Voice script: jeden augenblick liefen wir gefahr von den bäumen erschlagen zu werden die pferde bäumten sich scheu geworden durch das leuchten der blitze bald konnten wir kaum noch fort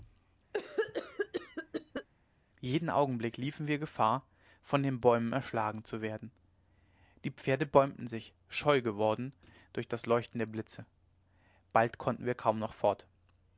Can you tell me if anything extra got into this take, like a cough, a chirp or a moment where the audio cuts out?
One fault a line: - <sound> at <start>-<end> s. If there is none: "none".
- cough at 0.5-2.1 s